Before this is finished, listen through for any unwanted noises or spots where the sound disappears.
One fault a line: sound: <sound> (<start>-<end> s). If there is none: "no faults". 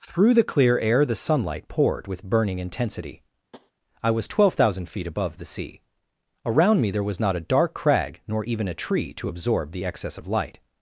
sound: tap (3.5-3.7 s)